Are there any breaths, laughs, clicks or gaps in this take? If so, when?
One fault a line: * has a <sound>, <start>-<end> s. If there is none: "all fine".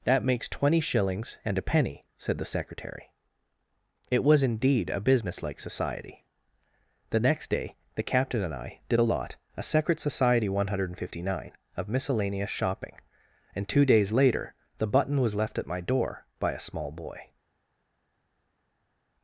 all fine